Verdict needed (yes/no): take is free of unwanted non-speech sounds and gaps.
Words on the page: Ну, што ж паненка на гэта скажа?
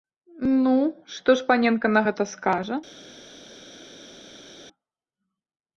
yes